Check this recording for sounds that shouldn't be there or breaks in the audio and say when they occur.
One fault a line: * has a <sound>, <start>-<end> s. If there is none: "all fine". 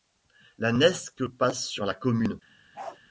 * has a bark, 2.7-3.0 s